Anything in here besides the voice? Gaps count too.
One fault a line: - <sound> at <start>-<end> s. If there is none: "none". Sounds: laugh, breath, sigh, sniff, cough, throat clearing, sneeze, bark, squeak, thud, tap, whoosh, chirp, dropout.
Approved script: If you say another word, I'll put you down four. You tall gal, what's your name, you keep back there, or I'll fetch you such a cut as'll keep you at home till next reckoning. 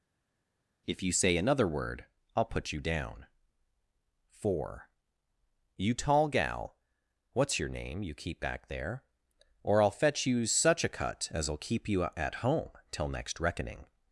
none